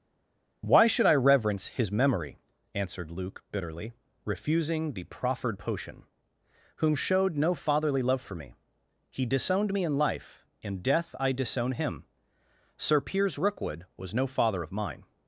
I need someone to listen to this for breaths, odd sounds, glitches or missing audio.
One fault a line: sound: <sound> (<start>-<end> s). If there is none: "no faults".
no faults